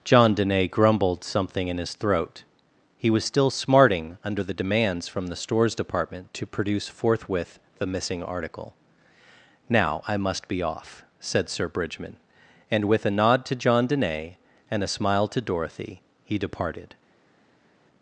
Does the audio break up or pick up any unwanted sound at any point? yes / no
no